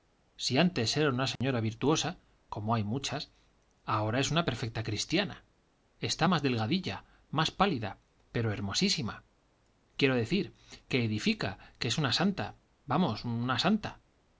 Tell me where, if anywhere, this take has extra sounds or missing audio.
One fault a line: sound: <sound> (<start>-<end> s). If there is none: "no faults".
sound: dropout (1.4-1.4 s)